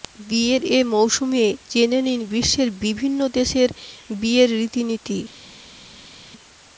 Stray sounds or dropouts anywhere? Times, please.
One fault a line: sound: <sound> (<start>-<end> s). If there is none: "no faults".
no faults